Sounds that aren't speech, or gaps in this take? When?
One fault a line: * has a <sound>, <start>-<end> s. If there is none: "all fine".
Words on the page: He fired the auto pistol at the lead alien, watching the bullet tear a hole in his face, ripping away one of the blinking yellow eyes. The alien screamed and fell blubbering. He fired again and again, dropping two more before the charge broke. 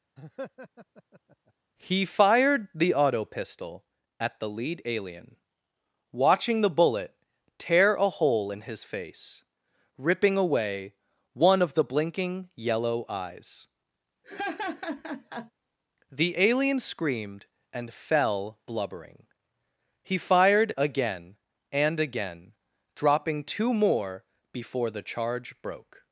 * has a laugh, 0.2-1.5 s
* has a laugh, 14.2-15.5 s